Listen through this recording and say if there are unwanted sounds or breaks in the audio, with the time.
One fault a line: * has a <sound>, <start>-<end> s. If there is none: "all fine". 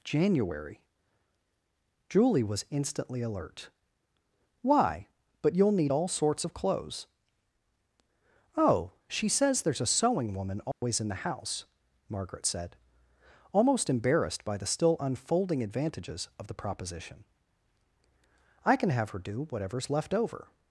* has a dropout, 10.7-10.8 s